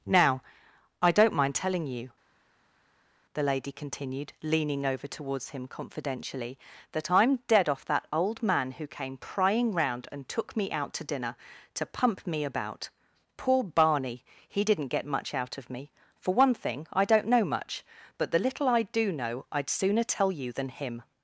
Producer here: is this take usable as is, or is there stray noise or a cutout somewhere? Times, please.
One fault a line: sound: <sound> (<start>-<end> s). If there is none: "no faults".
no faults